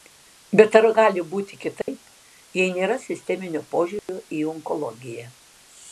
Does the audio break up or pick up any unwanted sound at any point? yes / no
yes